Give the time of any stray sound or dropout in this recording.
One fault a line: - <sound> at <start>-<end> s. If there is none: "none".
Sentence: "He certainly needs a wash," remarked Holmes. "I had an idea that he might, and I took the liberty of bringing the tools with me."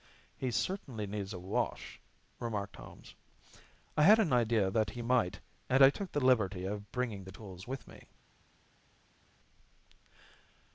none